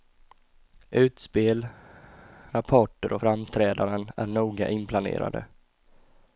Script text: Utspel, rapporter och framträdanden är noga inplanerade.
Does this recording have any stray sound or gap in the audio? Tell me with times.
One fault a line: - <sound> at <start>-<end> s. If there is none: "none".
none